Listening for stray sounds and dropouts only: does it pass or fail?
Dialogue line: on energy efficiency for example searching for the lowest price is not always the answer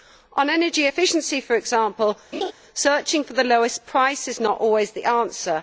fail